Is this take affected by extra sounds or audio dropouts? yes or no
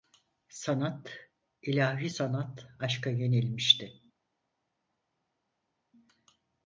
no